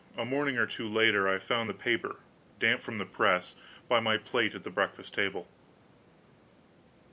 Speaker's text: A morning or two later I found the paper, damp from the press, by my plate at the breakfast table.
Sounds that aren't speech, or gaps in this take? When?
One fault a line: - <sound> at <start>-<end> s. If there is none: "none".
none